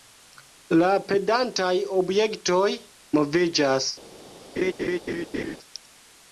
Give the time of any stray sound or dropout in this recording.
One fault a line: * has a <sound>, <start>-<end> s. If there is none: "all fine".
* has a laugh, 4.6-5.6 s